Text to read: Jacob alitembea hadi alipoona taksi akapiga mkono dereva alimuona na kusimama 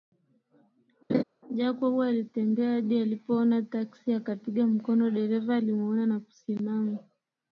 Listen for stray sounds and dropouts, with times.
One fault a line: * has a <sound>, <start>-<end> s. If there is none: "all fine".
* has a laugh, 1.1-1.2 s